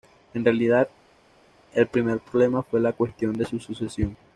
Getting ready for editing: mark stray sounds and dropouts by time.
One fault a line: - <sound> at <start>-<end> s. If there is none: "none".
none